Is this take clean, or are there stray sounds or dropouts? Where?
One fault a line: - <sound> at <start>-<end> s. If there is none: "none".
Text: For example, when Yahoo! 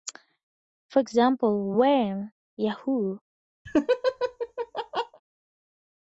- laugh at 3.7-5.2 s